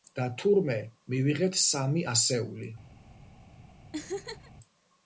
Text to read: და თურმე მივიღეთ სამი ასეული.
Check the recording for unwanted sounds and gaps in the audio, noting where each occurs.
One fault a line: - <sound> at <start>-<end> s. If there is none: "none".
- laugh at 3.9-4.5 s